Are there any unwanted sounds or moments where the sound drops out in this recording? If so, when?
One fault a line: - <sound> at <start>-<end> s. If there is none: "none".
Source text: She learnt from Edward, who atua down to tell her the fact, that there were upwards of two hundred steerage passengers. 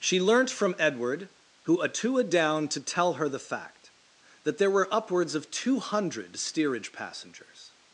none